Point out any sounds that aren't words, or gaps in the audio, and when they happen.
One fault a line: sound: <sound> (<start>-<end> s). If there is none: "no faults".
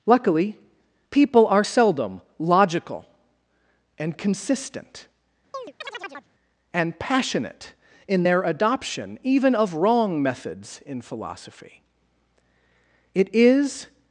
sound: chirp (5.5-6.3 s)